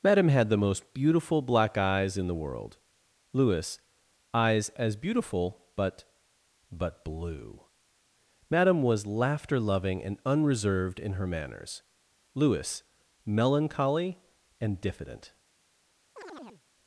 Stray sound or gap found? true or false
true